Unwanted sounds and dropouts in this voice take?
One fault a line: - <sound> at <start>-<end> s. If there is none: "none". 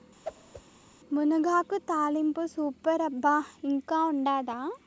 - whoosh at 0.2-0.6 s